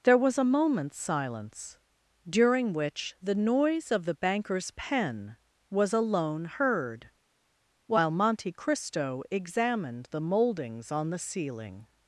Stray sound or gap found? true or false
false